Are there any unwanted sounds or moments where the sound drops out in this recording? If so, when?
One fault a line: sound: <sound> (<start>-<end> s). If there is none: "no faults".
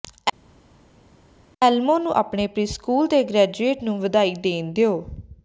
no faults